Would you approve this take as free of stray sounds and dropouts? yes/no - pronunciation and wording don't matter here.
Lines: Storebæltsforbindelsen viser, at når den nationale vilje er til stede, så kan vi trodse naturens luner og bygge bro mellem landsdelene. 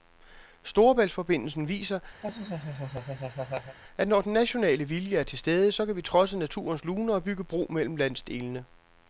no